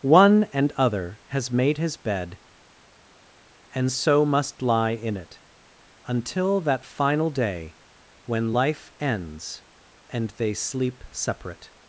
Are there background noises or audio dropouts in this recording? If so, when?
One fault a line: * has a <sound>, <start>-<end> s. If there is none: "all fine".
all fine